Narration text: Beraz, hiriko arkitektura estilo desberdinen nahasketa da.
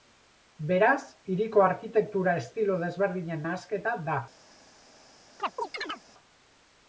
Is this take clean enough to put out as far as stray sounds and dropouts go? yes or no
no